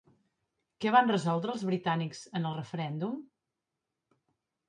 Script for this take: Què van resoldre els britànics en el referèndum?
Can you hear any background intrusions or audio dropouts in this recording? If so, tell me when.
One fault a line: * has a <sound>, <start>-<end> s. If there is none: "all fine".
all fine